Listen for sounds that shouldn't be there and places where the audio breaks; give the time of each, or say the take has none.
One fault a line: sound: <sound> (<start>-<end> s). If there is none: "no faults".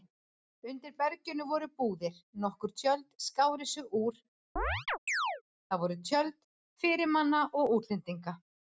sound: chirp (4.6-5.4 s)